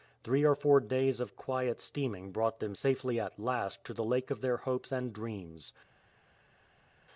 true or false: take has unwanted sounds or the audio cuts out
false